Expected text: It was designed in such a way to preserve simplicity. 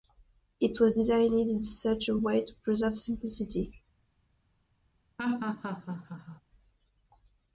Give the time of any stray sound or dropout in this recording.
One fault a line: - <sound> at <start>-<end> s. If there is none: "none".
- laugh at 5.2-6.4 s